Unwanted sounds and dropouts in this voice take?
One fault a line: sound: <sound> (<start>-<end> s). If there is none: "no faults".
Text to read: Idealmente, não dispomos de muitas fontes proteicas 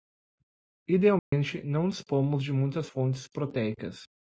sound: dropout (1.2-1.3 s)